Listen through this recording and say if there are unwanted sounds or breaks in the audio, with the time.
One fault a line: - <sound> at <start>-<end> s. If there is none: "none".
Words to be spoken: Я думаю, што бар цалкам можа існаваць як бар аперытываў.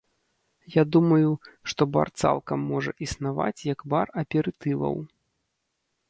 none